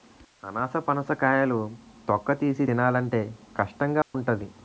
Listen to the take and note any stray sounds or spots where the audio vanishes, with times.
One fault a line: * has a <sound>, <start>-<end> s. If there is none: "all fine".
* has a dropout, 4.0-4.1 s